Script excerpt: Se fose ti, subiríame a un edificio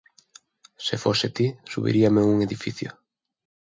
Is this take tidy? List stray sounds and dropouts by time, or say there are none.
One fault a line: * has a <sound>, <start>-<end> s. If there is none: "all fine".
all fine